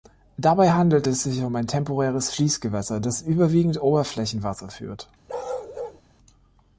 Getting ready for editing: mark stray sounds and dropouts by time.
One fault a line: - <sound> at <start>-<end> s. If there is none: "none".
- bark at 5.3-6.0 s